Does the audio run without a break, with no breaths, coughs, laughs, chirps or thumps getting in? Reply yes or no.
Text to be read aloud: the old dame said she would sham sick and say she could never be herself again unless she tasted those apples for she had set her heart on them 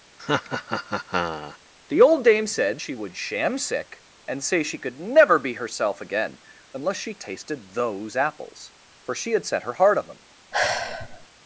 no